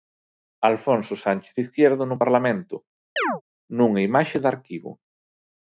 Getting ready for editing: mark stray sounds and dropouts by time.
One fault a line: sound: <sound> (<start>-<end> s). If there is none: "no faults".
sound: chirp (3.2-3.4 s)